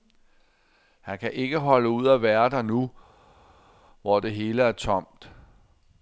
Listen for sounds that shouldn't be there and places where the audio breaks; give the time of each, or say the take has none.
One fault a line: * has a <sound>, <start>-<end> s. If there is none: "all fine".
all fine